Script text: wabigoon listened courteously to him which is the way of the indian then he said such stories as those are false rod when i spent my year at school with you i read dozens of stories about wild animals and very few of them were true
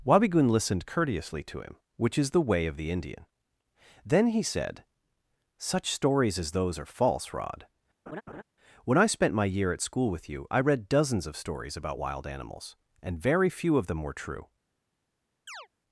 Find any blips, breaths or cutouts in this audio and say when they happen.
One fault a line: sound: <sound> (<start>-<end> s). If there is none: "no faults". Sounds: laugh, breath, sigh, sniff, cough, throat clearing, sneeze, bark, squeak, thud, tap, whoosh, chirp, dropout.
sound: laugh (8.1-8.4 s)
sound: chirp (15.5-15.7 s)